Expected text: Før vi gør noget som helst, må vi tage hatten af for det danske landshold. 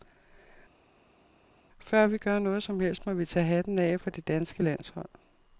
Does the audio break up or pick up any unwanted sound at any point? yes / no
no